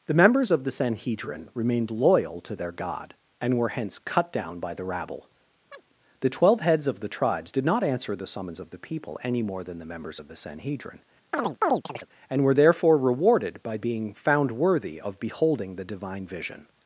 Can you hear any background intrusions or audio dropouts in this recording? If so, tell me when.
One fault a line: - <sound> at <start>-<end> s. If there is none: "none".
- chirp at 5.7-5.8 s
- chirp at 11.3-12.1 s